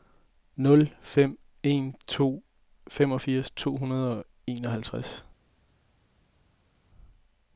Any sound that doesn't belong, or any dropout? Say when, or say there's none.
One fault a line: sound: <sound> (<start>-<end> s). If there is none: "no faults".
no faults